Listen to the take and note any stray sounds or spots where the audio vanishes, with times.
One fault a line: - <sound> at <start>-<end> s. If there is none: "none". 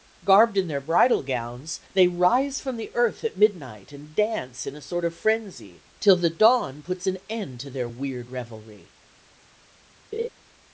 - laugh at 10.1-10.3 s